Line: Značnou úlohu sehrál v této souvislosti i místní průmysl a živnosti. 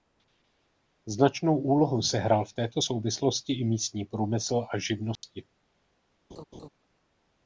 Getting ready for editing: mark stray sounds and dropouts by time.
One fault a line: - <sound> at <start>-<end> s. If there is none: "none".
- dropout at 5.2-5.2 s
- laugh at 6.3-6.7 s